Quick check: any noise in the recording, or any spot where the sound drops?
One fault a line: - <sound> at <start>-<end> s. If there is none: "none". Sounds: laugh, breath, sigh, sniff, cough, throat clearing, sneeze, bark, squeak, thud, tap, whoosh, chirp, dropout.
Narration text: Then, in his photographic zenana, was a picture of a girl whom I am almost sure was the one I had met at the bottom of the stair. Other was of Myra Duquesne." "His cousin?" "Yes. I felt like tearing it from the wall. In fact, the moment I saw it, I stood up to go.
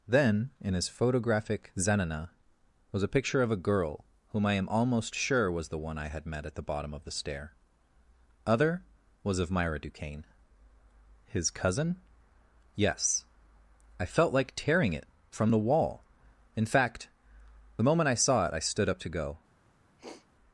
- sniff at 20.0-20.3 s